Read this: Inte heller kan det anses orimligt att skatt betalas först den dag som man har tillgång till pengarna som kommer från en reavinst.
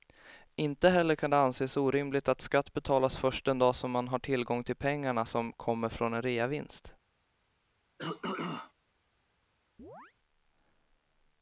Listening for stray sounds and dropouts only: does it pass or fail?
fail